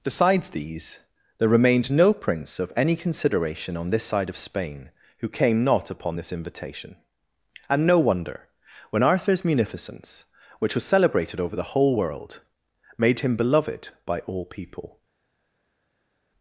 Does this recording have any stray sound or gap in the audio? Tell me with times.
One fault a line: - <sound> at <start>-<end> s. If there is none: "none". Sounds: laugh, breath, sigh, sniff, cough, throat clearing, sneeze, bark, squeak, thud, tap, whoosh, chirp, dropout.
none